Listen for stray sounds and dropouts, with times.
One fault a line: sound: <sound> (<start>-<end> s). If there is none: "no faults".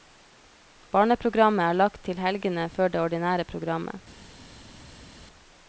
no faults